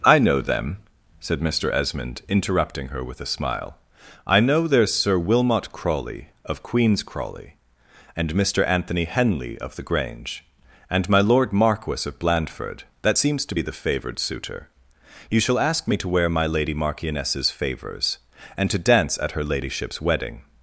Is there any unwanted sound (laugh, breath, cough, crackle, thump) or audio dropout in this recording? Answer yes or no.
no